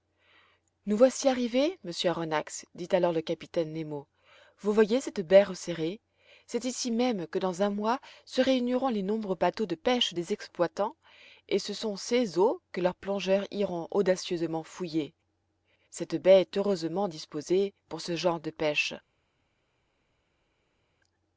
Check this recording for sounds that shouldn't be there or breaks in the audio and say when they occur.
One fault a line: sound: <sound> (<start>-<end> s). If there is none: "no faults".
no faults